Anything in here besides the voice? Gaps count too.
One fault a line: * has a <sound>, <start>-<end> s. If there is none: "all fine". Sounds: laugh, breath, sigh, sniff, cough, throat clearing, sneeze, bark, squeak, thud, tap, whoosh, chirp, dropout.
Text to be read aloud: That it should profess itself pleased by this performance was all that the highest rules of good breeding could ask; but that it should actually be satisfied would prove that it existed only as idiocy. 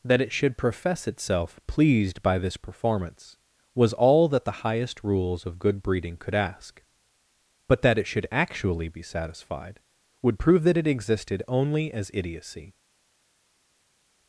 all fine